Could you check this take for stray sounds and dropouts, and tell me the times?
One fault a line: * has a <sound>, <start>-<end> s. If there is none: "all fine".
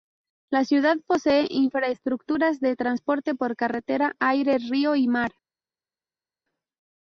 all fine